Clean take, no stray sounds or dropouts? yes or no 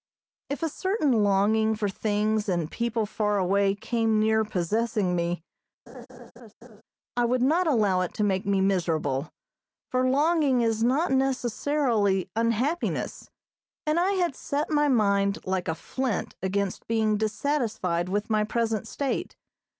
no